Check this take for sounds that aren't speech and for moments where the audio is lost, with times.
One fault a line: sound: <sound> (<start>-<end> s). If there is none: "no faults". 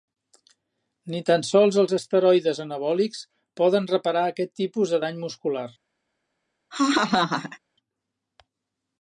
sound: laugh (6.7-7.6 s)